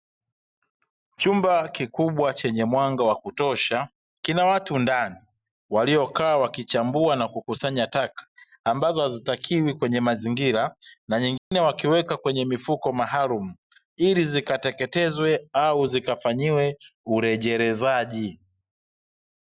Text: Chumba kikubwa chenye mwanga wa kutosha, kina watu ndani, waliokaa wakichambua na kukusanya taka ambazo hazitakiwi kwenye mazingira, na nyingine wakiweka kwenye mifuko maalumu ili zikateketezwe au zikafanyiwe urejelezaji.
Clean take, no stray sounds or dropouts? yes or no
no